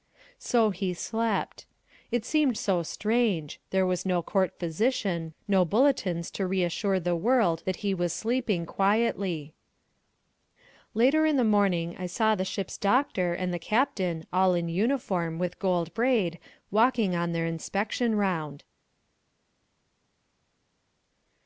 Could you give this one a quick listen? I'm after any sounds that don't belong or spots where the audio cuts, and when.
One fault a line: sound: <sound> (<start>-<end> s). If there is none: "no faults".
no faults